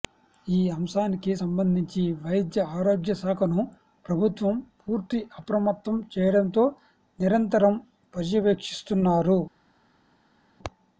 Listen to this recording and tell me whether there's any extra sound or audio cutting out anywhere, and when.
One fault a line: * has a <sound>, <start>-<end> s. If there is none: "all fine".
all fine